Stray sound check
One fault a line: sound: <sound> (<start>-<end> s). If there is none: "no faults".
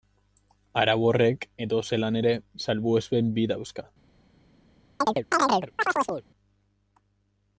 sound: chirp (5.0-6.2 s)